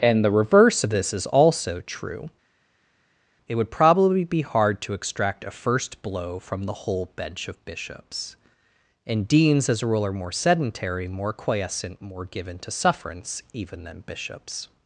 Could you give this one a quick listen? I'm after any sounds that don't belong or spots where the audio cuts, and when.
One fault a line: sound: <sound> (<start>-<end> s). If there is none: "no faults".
no faults